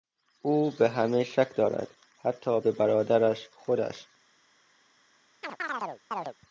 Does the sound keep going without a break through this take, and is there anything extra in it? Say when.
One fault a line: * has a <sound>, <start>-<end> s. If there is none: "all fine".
* has a chirp, 5.4-6.3 s